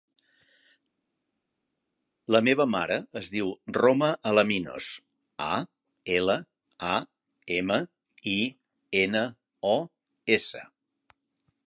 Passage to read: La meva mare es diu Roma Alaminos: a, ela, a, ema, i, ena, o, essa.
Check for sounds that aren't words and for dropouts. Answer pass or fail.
pass